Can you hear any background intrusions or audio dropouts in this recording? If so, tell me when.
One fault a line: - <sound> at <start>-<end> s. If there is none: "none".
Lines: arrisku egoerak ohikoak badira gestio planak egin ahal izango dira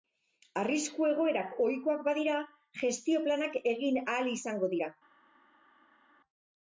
none